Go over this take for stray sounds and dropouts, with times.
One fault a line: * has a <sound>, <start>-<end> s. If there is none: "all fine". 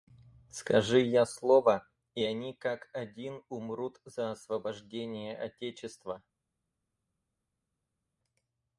all fine